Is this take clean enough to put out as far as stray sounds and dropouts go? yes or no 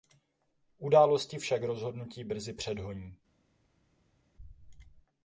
yes